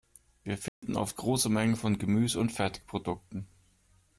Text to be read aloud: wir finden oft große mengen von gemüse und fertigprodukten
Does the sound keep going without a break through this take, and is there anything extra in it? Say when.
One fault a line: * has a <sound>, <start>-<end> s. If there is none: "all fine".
* has a dropout, 0.7-0.8 s